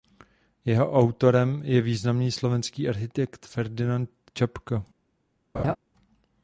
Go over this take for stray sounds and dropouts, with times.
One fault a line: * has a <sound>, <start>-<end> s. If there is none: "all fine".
* has a laugh, 5.5-5.8 s